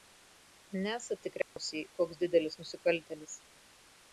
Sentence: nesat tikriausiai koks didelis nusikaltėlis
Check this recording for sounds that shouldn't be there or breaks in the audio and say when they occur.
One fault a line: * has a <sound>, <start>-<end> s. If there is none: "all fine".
* has a dropout, 1.4-1.6 s